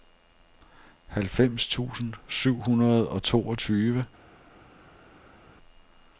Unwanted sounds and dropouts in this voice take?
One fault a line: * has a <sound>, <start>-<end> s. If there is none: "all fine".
all fine